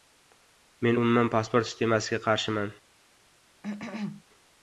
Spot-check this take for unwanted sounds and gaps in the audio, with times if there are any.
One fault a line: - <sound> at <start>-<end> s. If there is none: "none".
- cough at 3.6-4.2 s